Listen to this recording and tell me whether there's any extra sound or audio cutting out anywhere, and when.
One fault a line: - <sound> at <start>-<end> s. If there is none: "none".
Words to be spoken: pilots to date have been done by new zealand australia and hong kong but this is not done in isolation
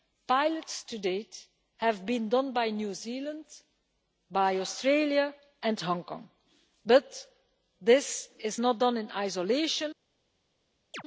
- chirp at 10.9-11.0 s